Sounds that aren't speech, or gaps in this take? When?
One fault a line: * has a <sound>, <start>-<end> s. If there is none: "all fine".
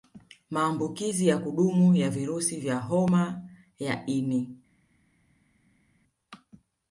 all fine